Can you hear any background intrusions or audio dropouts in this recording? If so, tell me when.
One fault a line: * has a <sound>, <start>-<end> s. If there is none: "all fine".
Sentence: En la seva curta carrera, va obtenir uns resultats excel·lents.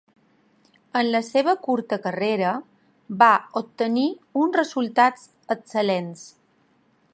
all fine